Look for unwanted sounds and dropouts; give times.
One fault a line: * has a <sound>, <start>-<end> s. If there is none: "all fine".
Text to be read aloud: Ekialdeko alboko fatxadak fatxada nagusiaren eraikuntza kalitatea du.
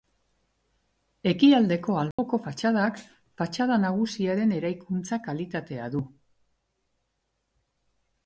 * has a dropout, 2.1-2.2 s